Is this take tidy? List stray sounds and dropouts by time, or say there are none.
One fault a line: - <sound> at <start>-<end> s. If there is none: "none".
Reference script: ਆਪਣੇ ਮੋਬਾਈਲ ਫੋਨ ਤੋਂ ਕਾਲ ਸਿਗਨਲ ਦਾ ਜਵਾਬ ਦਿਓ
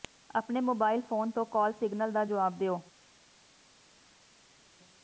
none